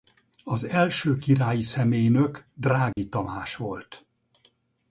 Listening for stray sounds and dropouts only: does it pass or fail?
fail